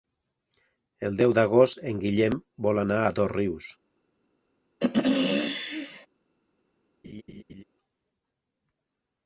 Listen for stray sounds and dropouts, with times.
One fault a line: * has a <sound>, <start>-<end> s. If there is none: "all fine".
* has a throat clearing, 4.8-6.1 s
* has a laugh, 7.0-7.6 s